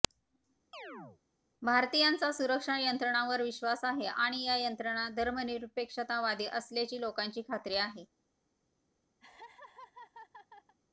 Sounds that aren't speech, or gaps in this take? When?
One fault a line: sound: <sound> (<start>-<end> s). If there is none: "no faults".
sound: chirp (0.7-1.2 s)
sound: laugh (9.2-10.7 s)